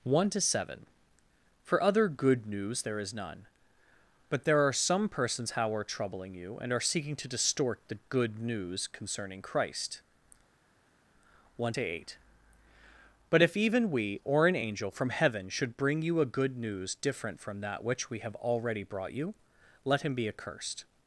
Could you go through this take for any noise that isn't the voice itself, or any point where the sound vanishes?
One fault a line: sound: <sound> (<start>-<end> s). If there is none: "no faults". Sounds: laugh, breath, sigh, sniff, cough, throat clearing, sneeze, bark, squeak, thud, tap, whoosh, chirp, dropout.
no faults